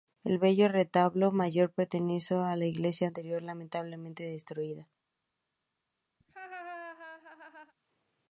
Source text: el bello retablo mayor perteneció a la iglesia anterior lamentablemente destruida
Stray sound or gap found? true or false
true